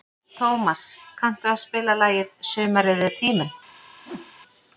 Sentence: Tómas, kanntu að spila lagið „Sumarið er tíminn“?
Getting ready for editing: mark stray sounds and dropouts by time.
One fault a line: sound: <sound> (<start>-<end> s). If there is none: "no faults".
sound: whoosh (4.0-4.3 s)